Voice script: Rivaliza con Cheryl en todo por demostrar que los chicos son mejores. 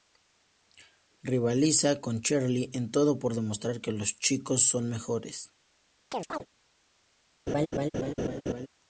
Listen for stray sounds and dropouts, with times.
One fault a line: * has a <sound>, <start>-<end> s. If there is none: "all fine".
* has a chirp, 6.1-6.5 s
* has a laugh, 7.5-8.7 s